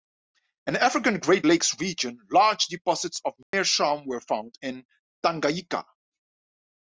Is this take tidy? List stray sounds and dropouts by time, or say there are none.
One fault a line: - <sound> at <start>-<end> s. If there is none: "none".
- dropout at 3.4-3.5 s